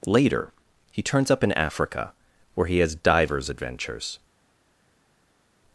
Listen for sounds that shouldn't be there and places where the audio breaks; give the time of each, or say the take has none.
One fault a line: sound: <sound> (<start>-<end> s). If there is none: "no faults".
no faults